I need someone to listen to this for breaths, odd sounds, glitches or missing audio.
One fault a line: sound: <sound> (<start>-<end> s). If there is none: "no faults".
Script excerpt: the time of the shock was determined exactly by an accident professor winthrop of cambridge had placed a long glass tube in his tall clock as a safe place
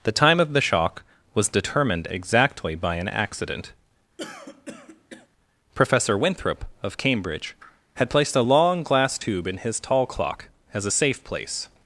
sound: throat clearing (4.2-5.3 s)